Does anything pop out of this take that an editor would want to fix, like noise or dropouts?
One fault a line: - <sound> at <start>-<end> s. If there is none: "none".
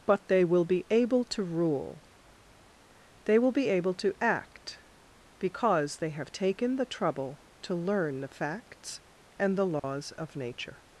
- dropout at 9.8-9.8 s